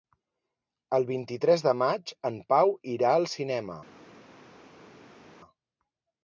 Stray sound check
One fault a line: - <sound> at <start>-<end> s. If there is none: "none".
none